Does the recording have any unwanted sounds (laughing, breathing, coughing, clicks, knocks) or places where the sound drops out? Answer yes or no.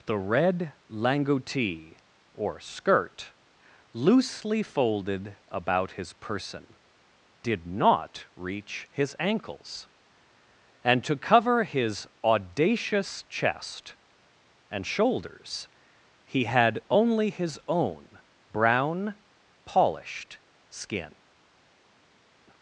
no